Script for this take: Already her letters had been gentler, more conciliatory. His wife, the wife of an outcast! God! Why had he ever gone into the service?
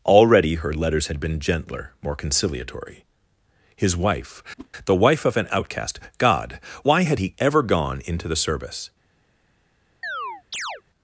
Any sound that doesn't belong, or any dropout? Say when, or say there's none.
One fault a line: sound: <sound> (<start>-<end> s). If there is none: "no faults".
sound: whoosh (4.6-4.7 s)
sound: chirp (10.0-10.8 s)